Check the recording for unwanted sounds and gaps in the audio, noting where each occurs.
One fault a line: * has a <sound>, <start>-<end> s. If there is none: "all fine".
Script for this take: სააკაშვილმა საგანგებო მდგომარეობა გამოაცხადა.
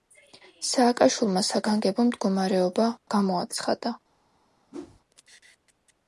* has a whoosh, 4.7-5.0 s